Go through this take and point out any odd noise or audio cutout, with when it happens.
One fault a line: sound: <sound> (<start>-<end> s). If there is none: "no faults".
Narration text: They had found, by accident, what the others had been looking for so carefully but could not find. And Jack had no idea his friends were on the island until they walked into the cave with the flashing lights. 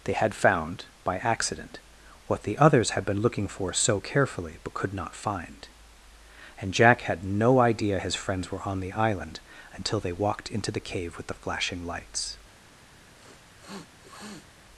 sound: sniff (13.1-14.5 s)